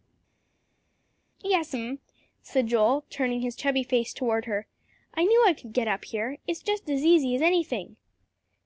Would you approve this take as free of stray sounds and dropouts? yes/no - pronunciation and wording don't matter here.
yes